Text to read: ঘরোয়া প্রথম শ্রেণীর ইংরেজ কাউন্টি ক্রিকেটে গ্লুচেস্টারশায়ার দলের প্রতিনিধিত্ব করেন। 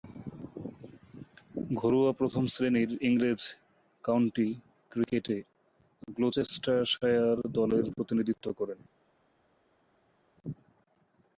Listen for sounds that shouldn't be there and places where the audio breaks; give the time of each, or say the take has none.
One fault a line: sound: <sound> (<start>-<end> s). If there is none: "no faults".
no faults